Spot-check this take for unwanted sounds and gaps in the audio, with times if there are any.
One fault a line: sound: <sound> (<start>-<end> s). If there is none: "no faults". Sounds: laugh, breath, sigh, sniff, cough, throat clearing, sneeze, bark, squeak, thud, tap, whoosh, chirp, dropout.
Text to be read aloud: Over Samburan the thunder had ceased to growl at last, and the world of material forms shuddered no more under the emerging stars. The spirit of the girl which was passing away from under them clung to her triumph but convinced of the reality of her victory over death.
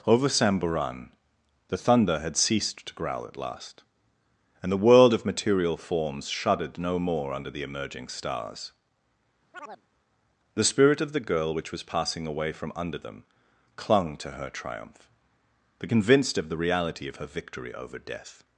sound: chirp (9.5-9.8 s)